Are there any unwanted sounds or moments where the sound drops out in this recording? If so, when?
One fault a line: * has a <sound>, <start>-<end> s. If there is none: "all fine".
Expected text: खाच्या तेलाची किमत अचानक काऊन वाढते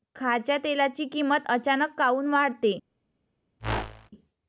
* has a whoosh, 3.6-4.1 s